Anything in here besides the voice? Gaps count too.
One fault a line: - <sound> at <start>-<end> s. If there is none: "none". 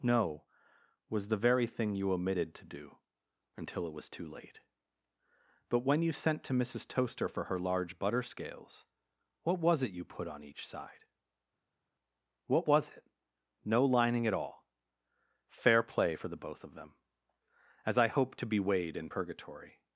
none